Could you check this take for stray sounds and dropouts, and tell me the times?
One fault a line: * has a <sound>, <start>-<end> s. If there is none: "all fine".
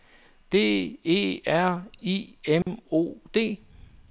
* has a dropout, 2.6-2.7 s